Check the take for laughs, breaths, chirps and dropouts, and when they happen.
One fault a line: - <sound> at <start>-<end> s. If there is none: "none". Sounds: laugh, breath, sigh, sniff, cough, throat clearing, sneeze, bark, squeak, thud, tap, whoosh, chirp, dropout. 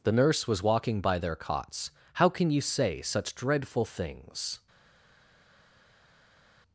none